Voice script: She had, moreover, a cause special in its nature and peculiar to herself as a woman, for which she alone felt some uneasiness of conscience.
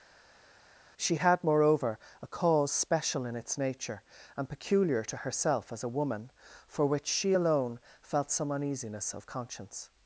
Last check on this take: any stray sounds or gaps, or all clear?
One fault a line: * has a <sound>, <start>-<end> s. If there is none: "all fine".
all fine